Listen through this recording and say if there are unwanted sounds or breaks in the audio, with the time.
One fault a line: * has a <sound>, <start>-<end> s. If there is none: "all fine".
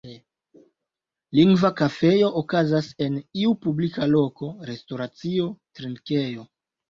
all fine